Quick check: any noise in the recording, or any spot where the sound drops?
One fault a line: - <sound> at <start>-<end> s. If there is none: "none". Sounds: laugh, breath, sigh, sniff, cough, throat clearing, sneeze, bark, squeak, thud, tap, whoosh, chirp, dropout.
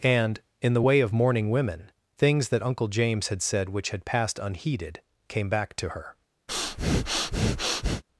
- breath at 6.5-8.0 s